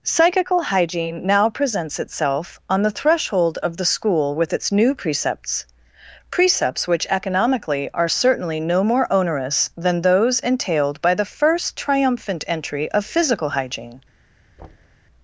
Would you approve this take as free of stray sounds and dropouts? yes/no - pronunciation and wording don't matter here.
no